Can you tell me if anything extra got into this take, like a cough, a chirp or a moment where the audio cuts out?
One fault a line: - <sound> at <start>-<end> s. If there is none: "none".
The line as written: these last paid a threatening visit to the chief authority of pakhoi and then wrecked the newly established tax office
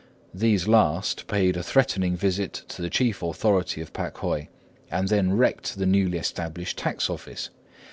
none